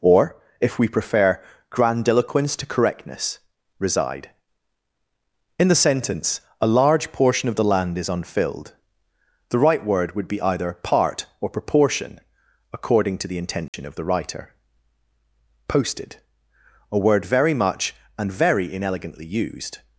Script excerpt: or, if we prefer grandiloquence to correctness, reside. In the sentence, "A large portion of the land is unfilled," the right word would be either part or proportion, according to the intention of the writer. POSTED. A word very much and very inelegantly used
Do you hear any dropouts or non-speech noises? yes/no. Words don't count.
yes